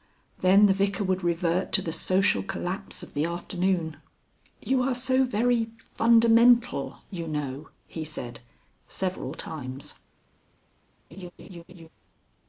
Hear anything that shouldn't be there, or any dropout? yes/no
yes